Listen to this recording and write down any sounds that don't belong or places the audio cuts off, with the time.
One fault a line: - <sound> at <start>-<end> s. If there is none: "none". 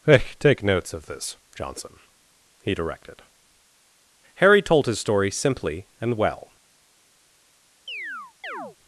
- chirp at 7.9-8.8 s